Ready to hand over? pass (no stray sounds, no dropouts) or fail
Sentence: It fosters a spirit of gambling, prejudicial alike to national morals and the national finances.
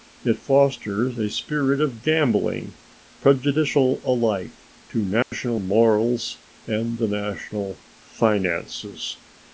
fail